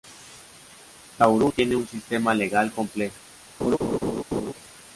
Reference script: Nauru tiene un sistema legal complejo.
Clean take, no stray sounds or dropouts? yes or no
no